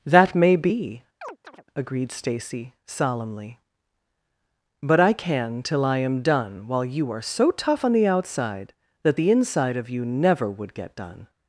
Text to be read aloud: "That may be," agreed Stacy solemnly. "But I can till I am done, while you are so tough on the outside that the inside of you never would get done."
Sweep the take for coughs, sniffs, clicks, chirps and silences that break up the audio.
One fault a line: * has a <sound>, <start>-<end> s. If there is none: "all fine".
* has a chirp, 1.2-1.6 s